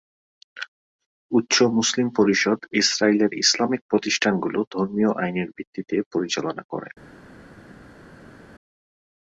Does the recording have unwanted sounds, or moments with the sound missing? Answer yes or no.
no